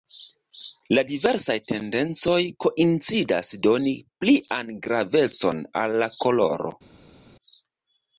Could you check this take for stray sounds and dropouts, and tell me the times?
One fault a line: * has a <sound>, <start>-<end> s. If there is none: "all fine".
all fine